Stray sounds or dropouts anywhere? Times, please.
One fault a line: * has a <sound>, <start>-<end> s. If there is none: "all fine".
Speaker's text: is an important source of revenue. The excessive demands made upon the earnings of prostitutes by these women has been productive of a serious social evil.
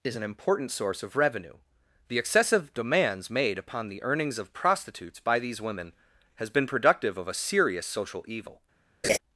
* has a laugh, 9.0-9.2 s